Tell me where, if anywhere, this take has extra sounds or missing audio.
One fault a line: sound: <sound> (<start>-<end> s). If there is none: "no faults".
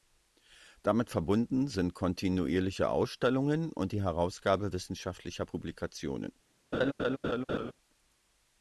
sound: laugh (6.7-7.7 s)